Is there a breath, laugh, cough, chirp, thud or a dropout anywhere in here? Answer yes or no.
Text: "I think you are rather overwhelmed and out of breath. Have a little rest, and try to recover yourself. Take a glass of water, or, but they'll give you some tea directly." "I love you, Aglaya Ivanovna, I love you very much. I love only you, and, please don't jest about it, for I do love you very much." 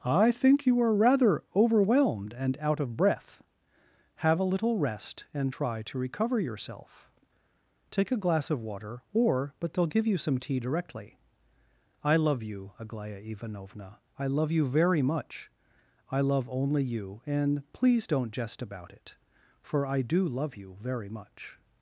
no